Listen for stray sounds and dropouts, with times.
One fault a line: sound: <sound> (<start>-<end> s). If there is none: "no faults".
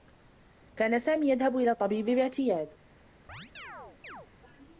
sound: chirp (3.3-4.3 s)